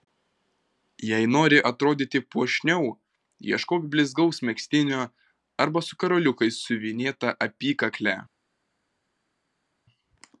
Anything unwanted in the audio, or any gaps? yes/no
no